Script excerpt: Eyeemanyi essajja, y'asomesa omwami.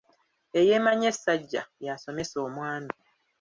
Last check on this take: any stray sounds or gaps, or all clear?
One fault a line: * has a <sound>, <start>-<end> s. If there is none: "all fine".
all fine